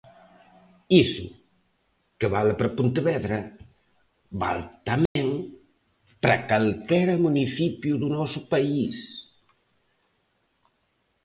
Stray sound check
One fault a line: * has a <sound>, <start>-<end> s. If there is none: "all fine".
* has a dropout, 5.1-5.2 s